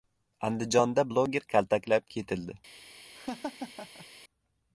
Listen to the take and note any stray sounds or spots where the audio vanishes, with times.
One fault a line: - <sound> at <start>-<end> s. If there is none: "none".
- laugh at 3.1-4.1 s